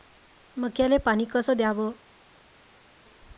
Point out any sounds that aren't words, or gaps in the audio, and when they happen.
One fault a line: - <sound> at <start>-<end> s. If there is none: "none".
none